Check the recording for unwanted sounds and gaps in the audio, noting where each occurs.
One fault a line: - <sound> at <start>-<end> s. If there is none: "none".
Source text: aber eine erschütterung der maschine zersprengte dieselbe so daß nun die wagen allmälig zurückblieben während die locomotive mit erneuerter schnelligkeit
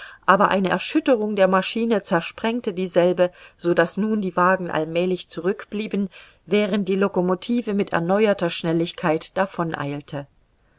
none